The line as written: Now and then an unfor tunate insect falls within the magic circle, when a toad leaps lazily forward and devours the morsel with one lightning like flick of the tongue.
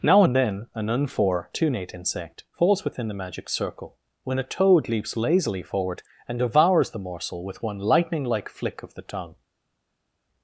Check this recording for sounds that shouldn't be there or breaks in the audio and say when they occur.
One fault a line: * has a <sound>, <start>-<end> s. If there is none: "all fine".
all fine